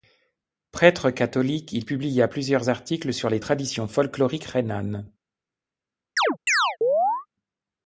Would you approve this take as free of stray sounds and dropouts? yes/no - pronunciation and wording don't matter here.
no